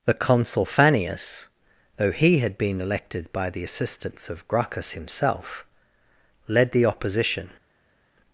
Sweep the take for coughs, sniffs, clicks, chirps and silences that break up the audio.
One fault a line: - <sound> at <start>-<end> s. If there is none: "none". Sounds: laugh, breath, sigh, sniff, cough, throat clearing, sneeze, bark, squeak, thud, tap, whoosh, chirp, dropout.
none